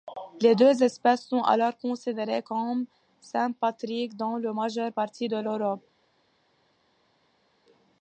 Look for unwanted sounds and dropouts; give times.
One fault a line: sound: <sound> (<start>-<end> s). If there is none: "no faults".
no faults